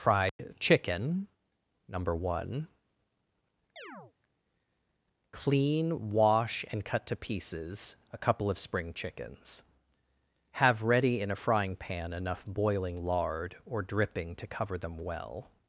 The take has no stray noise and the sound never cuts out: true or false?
false